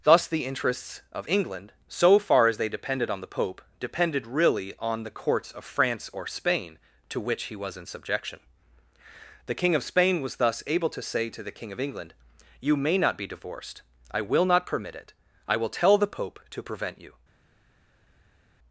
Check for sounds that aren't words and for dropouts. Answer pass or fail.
pass